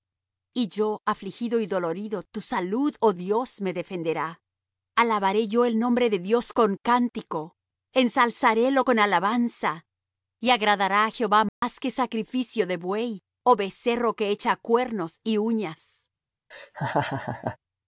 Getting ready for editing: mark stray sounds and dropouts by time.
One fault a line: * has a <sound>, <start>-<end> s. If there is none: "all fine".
* has a dropout, 11.5-11.6 s
* has a laugh, 16.5-17.6 s